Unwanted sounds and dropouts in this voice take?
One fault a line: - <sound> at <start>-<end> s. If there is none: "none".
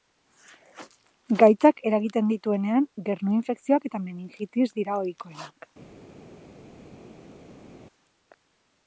none